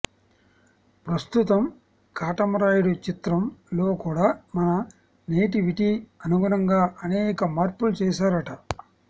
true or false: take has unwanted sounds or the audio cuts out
false